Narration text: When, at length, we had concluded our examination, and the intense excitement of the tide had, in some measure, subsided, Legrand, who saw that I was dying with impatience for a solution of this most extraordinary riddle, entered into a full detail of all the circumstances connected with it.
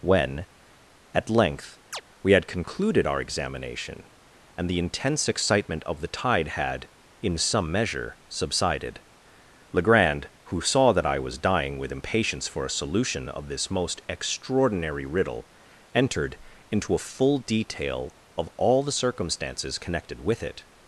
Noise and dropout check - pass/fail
fail